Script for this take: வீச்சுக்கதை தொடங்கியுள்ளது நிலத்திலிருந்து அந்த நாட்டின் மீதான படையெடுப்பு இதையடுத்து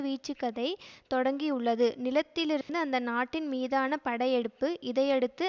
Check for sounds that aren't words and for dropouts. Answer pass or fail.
fail